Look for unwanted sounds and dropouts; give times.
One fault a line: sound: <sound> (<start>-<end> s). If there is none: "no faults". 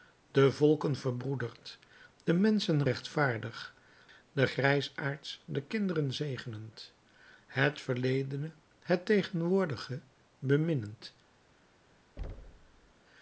sound: thud (12.2-12.9 s)